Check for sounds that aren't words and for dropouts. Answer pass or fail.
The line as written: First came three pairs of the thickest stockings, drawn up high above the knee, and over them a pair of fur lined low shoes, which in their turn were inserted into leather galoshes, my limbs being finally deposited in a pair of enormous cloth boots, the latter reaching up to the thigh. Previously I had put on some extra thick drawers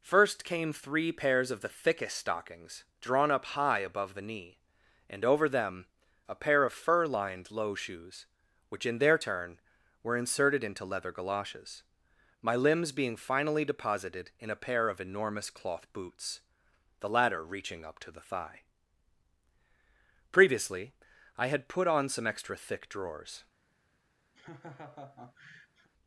fail